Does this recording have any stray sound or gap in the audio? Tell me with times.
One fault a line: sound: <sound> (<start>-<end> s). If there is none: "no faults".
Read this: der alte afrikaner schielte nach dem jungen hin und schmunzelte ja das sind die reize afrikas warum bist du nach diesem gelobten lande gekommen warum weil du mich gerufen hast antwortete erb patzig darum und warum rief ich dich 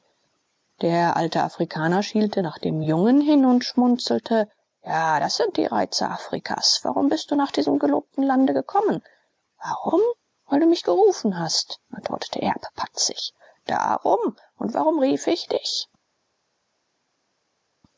no faults